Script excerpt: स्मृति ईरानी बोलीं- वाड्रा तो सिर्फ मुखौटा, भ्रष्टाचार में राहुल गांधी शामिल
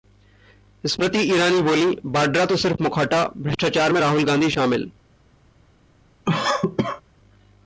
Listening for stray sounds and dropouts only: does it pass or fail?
fail